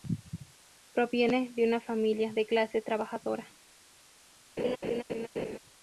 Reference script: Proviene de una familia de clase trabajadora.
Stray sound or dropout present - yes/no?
yes